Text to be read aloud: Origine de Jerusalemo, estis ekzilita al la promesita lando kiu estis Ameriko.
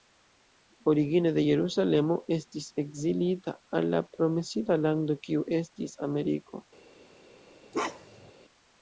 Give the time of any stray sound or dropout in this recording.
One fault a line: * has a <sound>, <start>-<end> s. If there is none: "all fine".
* has a bark, 7.7-8.3 s